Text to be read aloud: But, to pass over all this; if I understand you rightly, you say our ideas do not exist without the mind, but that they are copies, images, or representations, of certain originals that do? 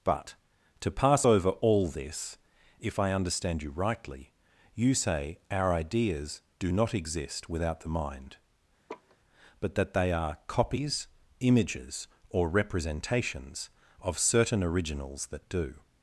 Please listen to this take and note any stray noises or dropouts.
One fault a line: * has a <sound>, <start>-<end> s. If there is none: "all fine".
* has a laugh, 8.9-9.2 s